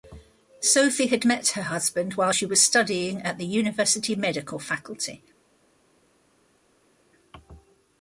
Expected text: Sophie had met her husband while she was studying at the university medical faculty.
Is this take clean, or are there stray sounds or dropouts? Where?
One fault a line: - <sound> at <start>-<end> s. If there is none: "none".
none